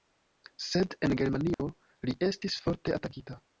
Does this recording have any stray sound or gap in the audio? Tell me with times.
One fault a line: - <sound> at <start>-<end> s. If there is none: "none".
- dropout at 1.5-1.6 s